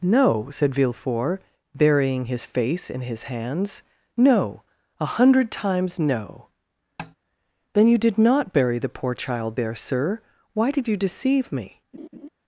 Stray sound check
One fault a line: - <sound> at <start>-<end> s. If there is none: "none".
- tap at 7.0-7.2 s
- laugh at 11.9-12.3 s